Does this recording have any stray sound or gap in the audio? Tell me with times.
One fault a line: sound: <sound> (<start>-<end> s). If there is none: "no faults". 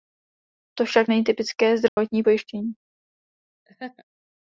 sound: dropout (1.9-2.0 s)
sound: laugh (3.7-4.0 s)